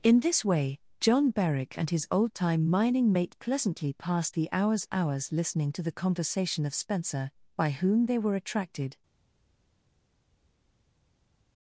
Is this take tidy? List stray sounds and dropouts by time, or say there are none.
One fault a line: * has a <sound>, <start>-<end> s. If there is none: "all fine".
all fine